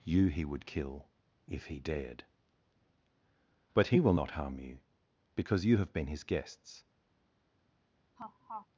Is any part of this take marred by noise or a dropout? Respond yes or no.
yes